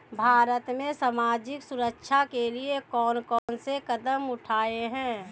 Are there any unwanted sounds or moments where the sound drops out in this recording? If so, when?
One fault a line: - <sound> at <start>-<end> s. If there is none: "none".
- dropout at 3.4-3.5 s